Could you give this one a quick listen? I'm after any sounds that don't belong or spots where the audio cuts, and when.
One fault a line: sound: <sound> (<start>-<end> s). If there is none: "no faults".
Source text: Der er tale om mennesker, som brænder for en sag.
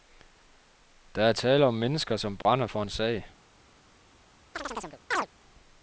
sound: dropout (2.4-2.5 s)
sound: chirp (4.5-5.3 s)